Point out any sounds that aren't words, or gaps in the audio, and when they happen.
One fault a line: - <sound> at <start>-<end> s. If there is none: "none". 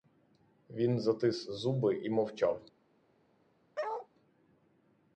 - bark at 3.8-4.1 s